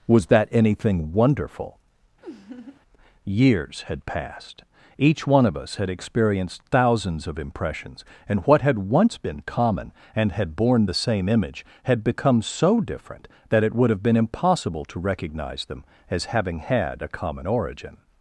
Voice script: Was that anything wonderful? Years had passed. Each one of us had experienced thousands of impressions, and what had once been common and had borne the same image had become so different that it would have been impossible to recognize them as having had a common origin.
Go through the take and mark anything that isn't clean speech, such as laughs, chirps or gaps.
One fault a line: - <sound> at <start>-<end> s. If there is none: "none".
- laugh at 2.2-2.8 s